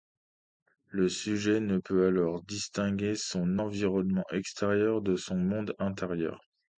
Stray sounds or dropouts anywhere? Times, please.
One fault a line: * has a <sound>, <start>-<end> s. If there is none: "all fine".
all fine